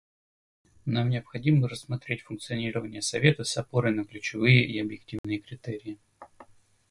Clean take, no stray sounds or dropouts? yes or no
no